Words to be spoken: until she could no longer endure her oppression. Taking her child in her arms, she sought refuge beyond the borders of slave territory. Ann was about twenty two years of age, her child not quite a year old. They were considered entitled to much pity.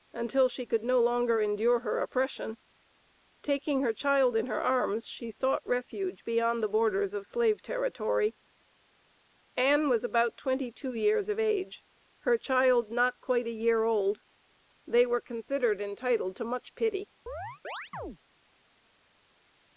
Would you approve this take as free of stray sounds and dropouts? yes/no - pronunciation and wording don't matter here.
no